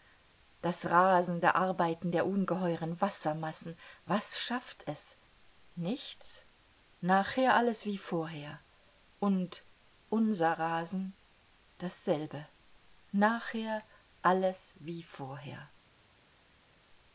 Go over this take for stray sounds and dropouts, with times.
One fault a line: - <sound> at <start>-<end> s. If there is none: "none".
none